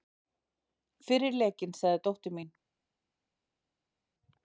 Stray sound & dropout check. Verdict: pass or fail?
pass